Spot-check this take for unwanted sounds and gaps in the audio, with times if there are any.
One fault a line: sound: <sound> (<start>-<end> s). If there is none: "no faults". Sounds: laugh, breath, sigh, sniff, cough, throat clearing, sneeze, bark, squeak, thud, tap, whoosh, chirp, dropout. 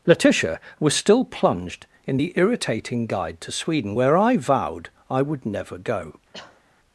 sound: cough (6.3-6.6 s)